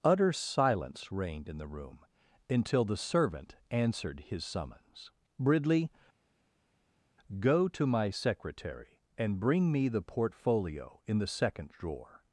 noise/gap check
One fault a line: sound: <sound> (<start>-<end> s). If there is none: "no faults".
no faults